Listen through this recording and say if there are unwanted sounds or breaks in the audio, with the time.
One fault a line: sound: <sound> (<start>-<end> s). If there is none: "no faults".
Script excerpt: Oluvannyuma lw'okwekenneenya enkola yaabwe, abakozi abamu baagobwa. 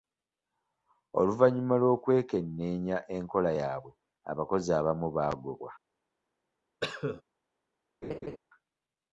sound: cough (6.8-7.2 s)
sound: laugh (8.0-8.4 s)